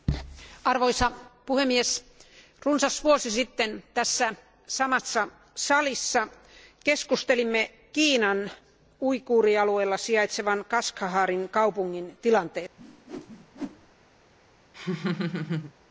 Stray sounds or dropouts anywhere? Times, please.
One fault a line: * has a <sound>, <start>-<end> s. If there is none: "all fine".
* has a whoosh, 12.8-13.9 s
* has a laugh, 14.7-15.7 s